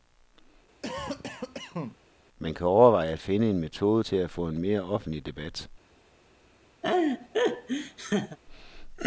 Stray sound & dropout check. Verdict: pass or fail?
fail